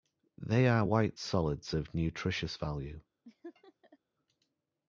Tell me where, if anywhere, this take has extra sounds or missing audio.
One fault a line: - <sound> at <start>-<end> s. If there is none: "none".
- laugh at 3.2-4.0 s